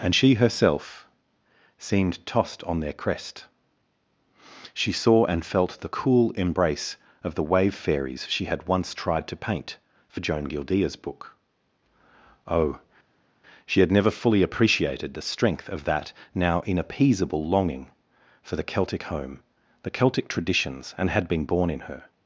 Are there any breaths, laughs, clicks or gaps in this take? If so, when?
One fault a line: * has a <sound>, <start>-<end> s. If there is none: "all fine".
all fine